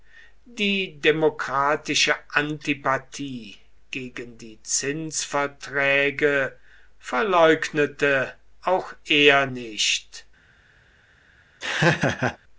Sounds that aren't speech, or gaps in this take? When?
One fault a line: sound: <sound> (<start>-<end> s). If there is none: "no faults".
sound: laugh (11.6-12.4 s)